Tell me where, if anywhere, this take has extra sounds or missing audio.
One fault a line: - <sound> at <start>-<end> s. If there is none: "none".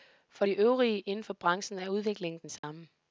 - dropout at 2.6-2.6 s